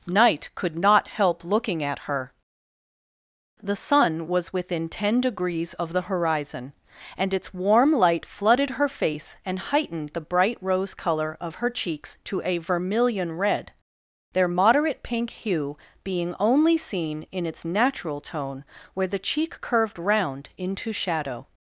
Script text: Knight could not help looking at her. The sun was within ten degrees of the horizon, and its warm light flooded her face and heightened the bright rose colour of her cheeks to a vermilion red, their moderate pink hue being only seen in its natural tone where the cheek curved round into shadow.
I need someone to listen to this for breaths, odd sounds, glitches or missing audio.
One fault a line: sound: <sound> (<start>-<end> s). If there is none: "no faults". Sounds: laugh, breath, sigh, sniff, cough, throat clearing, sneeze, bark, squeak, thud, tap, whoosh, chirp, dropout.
no faults